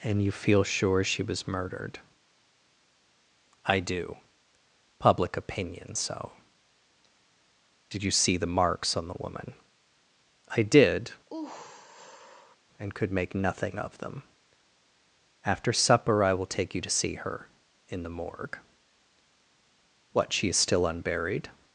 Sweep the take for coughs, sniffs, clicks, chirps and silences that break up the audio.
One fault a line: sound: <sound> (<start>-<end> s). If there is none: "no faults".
sound: sigh (11.3-12.6 s)